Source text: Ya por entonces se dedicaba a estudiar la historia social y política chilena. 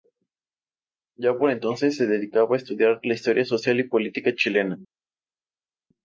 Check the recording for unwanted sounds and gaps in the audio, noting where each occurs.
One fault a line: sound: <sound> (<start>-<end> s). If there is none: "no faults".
no faults